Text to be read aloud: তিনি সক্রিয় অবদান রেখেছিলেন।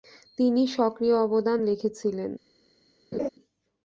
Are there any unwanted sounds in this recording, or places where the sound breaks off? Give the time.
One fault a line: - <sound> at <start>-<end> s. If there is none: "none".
- laugh at 3.1-3.3 s